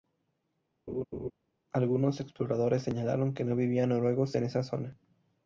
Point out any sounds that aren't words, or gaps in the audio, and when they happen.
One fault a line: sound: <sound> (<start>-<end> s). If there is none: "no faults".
sound: laugh (0.9-1.3 s)